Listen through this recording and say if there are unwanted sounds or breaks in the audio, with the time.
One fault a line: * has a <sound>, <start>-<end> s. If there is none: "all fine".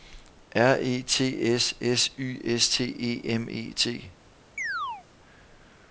* has a chirp, 4.6-5.1 s